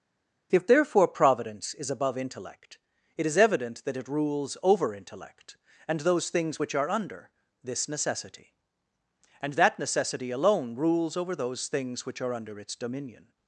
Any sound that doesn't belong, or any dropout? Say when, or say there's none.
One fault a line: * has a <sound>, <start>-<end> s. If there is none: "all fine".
all fine